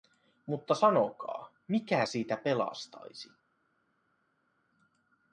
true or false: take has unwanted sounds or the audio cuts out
false